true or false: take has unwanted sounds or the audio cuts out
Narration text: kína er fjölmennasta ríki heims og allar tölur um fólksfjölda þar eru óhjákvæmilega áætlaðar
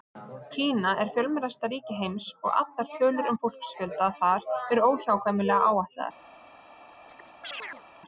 true